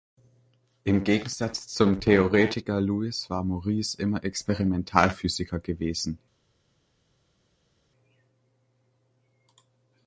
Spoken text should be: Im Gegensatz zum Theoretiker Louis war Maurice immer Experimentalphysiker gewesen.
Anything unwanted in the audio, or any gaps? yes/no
no